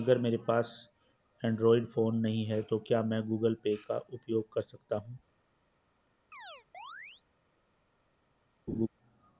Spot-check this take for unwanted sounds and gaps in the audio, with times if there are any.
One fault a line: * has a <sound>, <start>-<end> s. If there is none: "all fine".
* has a chirp, 6.3-7.2 s
* has a laugh, 8.7-8.9 s